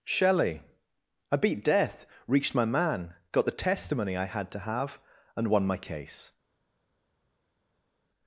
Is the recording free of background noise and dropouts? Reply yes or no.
yes